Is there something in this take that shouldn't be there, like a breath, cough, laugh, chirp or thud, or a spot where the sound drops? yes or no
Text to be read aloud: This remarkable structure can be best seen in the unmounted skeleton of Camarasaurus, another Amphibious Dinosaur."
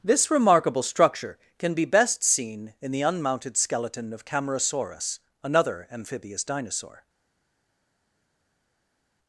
no